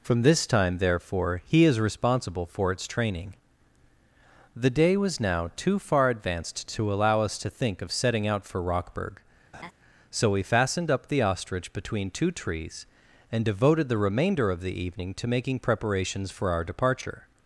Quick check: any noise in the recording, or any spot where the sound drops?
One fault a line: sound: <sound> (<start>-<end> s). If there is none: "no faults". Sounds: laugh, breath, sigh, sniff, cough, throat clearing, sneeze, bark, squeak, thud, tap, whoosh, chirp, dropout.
sound: laugh (9.5-9.7 s)